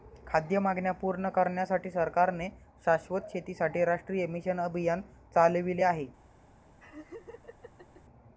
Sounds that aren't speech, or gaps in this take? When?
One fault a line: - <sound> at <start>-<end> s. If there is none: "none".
- laugh at 6.8-8.0 s